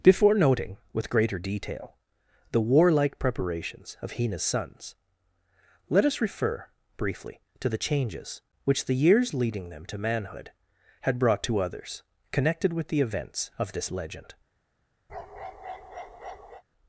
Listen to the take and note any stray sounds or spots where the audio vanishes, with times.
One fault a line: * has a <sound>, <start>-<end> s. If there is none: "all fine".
* has a bark, 15.1-16.6 s